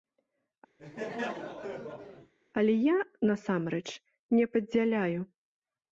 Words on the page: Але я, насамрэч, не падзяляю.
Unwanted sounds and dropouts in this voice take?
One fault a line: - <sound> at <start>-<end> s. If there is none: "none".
- laugh at 0.8-2.3 s